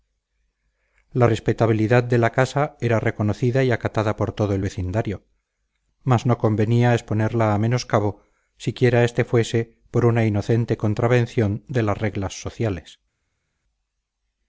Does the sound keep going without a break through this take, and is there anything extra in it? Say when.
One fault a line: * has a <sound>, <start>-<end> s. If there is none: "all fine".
all fine